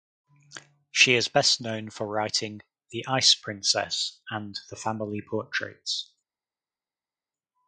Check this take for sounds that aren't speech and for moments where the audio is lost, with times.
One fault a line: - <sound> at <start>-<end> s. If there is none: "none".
none